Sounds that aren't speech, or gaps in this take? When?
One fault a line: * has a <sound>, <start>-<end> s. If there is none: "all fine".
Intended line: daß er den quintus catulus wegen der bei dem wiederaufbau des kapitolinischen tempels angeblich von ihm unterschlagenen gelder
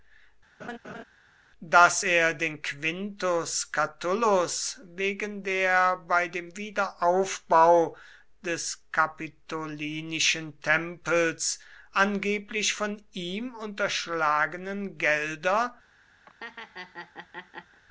* has a laugh, 0.6-1.0 s
* has a laugh, 16.3-17.8 s